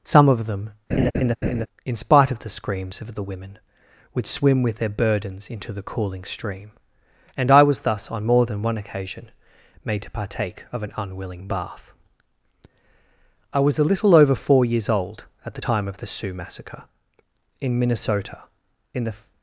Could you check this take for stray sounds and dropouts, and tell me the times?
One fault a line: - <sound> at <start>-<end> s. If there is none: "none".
- laugh at 0.9-1.7 s